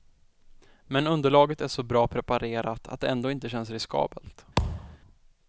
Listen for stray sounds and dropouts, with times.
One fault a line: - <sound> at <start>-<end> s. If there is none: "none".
- thud at 4.6-5.0 s